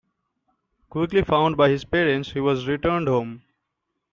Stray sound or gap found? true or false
false